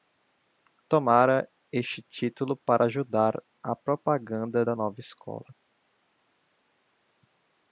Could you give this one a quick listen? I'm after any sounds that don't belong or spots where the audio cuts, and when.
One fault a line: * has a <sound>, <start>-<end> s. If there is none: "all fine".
all fine